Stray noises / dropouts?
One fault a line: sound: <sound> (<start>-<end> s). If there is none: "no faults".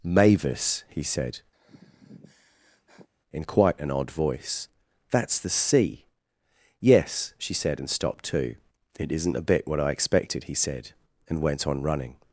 sound: sigh (1.5-3.1 s)